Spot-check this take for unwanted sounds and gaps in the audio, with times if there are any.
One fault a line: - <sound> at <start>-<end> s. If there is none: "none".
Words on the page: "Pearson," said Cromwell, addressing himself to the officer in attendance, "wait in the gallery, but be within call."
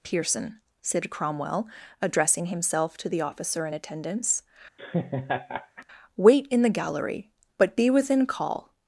- laugh at 4.8-5.9 s